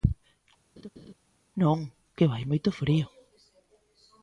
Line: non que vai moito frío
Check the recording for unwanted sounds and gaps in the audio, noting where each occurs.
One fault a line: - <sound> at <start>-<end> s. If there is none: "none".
- laugh at 0.8-1.1 s